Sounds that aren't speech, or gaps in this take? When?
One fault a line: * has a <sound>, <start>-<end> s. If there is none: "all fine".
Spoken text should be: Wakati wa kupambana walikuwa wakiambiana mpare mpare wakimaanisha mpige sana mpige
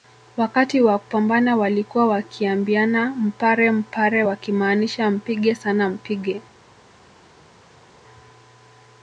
all fine